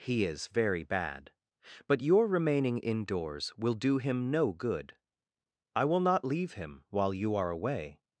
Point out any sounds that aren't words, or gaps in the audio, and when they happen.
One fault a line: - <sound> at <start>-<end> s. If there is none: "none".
none